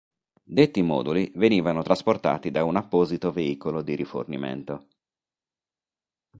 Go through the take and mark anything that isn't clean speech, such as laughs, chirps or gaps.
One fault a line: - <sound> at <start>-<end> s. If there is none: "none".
none